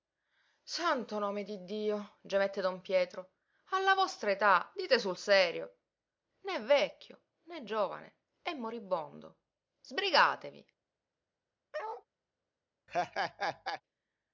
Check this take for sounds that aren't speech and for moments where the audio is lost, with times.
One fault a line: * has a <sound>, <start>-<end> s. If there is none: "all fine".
* has a bark, 11.7-12.1 s
* has a laugh, 12.9-13.8 s